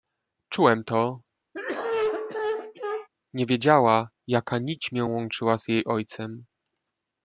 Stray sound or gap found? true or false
true